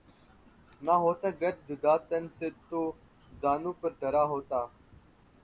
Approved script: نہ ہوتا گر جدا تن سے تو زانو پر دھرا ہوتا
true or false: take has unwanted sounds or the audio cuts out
false